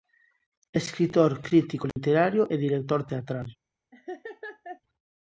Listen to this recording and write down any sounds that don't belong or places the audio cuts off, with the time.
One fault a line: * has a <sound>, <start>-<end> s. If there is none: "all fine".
* has a dropout, 1.9-2.0 s
* has a laugh, 3.9-4.8 s